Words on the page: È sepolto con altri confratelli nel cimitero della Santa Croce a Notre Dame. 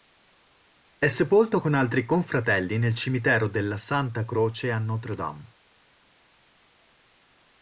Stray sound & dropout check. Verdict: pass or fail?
pass